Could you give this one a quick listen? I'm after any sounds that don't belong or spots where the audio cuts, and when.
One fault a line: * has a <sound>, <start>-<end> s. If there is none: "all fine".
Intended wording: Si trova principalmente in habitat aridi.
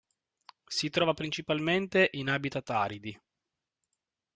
all fine